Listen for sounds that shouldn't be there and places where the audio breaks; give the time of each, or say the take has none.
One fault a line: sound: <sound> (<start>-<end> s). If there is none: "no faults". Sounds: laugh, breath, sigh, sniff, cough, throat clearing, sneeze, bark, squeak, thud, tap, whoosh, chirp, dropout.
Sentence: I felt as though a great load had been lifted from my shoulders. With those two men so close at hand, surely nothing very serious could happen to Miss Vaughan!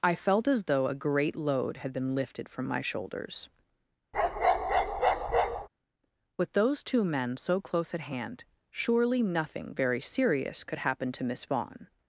sound: bark (4.1-5.7 s)